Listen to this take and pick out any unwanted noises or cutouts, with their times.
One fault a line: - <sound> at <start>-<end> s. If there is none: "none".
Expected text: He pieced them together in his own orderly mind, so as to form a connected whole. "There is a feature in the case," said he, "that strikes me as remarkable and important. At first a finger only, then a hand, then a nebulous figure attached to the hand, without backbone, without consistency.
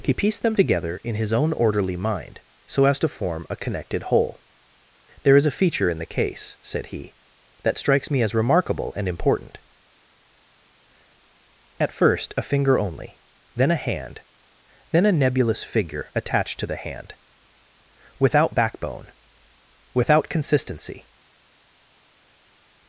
none